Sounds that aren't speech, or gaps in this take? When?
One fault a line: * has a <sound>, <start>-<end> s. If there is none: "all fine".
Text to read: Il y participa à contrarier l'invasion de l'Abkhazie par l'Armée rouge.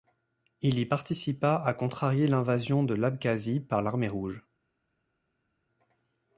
all fine